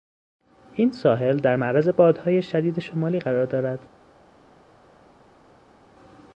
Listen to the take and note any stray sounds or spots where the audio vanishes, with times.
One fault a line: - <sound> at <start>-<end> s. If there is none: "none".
none